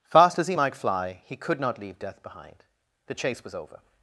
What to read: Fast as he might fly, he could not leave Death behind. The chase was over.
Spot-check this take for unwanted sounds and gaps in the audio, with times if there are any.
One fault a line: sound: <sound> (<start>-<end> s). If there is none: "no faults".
no faults